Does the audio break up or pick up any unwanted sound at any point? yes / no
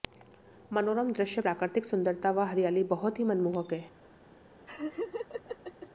yes